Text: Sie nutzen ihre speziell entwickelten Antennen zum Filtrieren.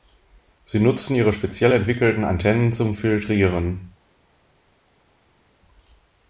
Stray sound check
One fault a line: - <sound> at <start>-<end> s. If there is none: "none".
none